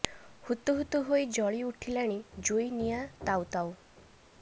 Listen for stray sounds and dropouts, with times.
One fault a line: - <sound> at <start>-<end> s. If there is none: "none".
none